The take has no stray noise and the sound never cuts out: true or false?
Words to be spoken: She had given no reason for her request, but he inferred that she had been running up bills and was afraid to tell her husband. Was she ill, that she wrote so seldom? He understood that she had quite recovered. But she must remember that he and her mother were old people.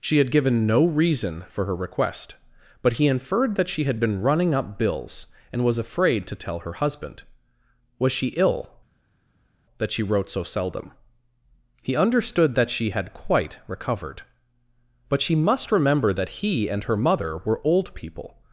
true